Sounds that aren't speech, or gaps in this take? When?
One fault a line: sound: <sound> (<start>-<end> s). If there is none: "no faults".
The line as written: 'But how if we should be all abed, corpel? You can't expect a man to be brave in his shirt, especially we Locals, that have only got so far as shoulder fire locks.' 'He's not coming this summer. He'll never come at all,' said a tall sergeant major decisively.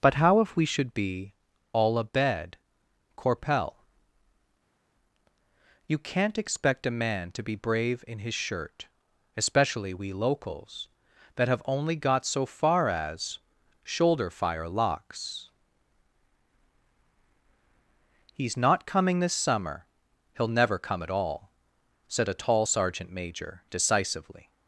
no faults